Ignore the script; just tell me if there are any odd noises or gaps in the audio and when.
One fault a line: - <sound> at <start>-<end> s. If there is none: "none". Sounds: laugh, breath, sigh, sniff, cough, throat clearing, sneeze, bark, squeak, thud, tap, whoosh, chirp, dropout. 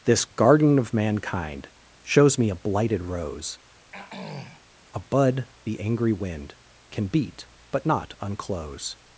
- throat clearing at 3.9-4.6 s